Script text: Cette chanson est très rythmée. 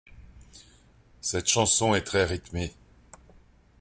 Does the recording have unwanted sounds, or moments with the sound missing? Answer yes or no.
no